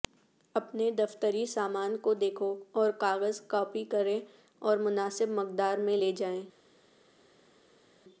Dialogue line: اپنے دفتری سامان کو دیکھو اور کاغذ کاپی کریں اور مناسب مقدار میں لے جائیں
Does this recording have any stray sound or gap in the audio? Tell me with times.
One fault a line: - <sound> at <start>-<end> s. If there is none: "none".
none